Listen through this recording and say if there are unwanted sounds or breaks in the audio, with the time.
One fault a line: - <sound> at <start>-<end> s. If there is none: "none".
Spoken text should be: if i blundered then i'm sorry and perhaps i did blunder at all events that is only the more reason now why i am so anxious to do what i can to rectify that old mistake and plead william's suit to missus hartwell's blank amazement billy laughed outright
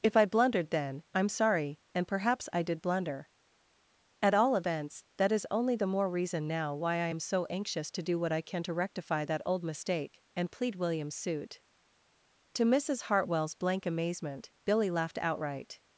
none